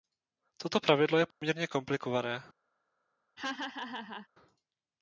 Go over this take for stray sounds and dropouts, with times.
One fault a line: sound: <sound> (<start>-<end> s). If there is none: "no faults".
sound: dropout (1.3-1.4 s)
sound: laugh (3.4-4.3 s)